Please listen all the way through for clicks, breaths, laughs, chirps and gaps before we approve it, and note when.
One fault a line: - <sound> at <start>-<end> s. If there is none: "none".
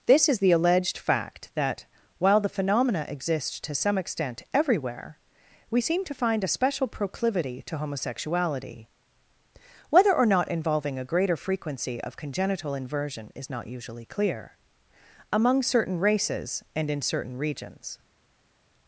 none